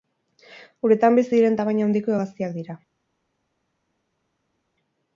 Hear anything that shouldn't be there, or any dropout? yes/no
no